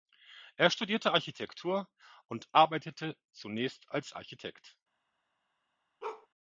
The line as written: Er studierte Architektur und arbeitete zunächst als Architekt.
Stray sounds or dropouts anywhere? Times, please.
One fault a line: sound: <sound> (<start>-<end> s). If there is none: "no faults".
sound: bark (6.0-6.3 s)